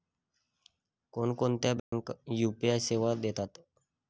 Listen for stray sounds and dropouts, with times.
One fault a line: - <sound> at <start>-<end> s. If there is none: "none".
- dropout at 1.8-1.9 s